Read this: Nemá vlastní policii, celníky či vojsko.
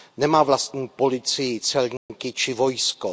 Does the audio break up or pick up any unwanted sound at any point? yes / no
yes